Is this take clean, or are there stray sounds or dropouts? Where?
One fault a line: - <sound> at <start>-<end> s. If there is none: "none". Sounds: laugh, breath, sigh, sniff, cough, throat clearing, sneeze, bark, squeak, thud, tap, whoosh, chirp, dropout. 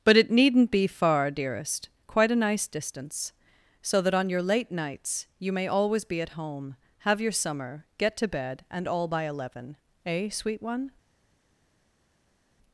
none